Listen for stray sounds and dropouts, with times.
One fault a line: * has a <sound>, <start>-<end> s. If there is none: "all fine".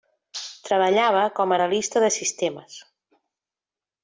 all fine